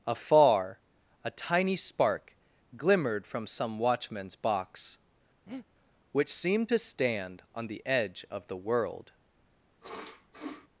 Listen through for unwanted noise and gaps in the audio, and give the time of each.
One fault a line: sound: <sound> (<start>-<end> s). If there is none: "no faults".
sound: breath (5.5-5.7 s)
sound: sniff (9.8-10.7 s)